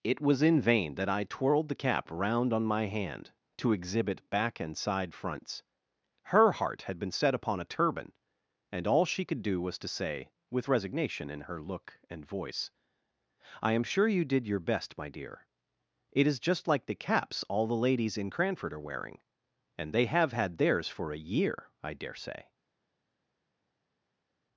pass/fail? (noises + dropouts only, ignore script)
pass